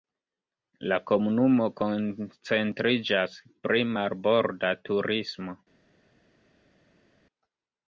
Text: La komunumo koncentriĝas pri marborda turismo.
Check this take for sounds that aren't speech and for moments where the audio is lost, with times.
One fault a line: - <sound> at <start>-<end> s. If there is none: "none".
none